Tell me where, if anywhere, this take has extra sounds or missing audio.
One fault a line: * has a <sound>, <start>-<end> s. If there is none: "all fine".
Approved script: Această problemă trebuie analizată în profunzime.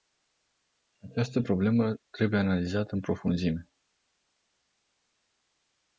all fine